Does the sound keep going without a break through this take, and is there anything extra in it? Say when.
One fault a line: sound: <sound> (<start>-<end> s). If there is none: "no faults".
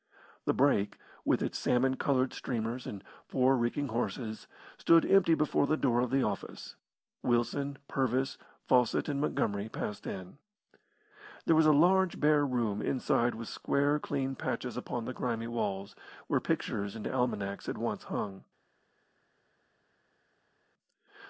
no faults